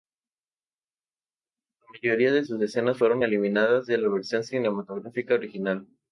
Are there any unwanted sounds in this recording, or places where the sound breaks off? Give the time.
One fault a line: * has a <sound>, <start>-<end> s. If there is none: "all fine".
all fine